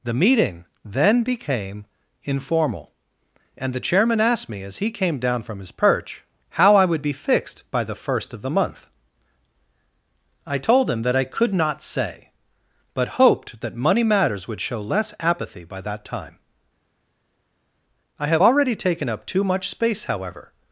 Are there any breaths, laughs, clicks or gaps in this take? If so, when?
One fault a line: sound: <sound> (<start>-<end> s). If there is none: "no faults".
no faults